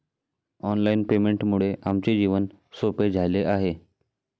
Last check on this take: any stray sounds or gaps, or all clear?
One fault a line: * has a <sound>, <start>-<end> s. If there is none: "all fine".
all fine